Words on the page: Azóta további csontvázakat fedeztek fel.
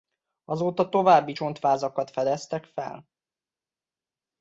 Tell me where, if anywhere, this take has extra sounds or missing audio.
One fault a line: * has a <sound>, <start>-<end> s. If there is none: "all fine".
all fine